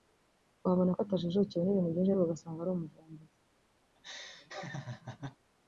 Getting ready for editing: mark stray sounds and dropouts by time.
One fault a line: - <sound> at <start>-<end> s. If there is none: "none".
- laugh at 3.9-5.4 s